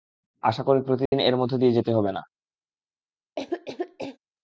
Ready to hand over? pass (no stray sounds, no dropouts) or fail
fail